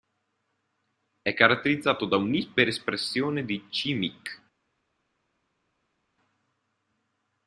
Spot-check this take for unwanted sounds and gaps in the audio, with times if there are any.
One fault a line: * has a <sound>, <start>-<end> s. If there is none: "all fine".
all fine